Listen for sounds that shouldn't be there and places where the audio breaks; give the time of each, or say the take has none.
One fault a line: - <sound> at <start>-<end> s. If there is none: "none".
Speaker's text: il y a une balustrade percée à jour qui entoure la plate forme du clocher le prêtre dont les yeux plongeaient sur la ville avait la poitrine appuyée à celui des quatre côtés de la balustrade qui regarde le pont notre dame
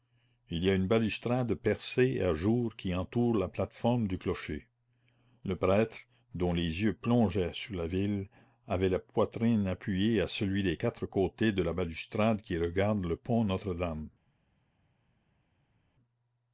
none